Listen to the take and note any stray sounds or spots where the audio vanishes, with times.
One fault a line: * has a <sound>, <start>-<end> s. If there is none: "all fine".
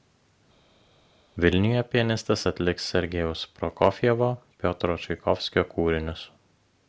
all fine